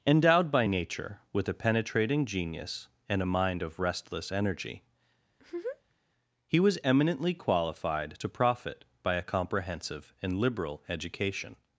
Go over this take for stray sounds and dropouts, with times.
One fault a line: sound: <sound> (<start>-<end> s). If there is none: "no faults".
sound: laugh (5.3-6.0 s)